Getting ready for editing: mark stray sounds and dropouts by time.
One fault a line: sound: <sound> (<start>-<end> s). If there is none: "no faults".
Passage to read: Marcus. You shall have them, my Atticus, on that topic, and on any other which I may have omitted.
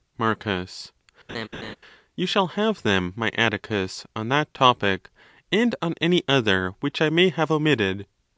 sound: laugh (1.3-1.8 s)